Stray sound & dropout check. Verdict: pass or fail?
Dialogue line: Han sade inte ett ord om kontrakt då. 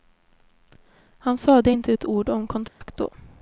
fail